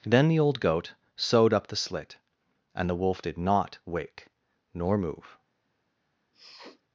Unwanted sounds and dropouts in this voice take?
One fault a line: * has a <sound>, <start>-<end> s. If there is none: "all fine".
* has a sniff, 6.3-6.8 s